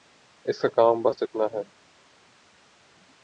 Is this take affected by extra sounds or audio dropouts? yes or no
no